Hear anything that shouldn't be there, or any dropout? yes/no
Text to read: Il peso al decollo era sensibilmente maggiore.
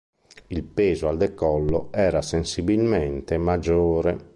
no